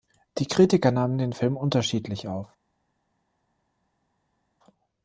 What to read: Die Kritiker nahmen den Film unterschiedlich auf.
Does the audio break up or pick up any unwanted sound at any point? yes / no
no